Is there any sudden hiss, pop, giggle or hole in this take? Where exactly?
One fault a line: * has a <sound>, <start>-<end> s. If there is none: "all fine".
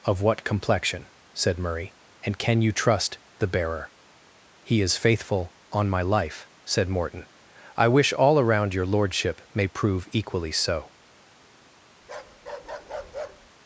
* has a bark, 12.0-13.5 s